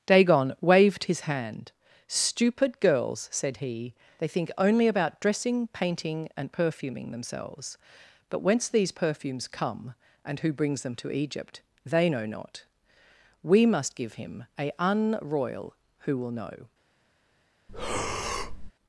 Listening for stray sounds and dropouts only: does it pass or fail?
fail